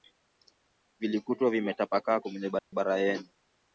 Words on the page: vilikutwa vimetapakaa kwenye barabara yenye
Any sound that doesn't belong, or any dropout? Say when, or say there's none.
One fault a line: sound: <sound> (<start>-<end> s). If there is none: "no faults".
sound: dropout (2.6-2.7 s)